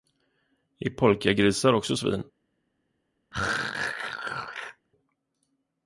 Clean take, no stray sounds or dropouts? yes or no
no